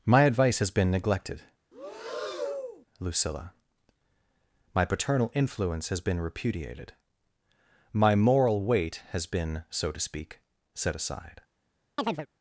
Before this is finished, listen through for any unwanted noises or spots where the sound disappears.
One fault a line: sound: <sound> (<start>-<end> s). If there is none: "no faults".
sound: breath (1.7-2.9 s)
sound: chirp (12.0-12.3 s)